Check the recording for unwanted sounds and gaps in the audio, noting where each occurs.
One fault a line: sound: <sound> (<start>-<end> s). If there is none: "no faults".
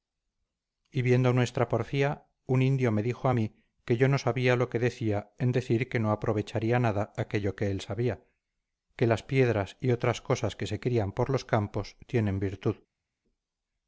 no faults